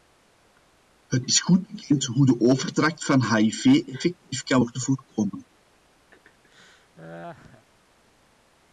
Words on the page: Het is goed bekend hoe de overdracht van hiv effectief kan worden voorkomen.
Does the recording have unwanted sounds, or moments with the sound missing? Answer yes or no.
yes